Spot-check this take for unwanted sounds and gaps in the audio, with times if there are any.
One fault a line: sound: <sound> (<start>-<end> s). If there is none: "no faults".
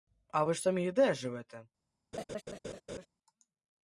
sound: laugh (2.1-3.1 s)